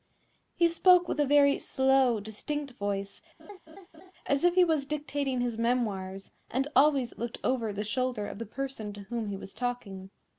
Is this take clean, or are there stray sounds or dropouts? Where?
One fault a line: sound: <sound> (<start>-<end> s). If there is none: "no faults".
sound: laugh (3.4-4.1 s)